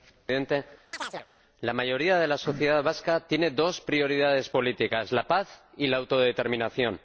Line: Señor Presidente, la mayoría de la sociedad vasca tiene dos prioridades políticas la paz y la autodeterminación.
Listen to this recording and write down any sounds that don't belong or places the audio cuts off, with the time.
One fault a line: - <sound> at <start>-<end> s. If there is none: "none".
- chirp at 0.9-1.3 s